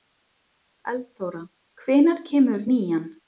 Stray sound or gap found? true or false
false